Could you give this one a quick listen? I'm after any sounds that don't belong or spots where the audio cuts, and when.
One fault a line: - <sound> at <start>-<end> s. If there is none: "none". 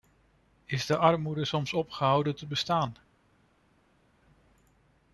none